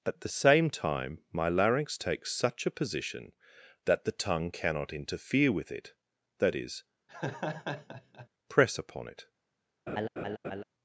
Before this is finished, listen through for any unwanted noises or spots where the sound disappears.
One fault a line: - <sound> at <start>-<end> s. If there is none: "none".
- laugh at 7.1-8.3 s
- laugh at 9.9-10.6 s